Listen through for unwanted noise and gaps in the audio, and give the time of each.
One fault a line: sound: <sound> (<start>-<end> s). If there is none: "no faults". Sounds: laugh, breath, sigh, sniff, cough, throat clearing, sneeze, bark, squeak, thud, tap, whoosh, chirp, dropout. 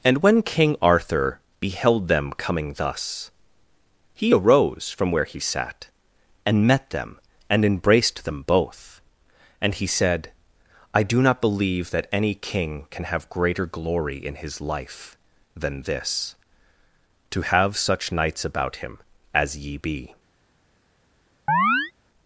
sound: chirp (21.5-21.9 s)